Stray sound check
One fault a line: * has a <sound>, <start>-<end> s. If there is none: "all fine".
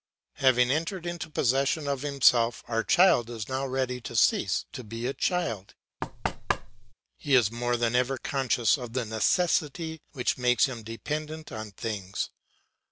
* has a thud, 6.0-6.9 s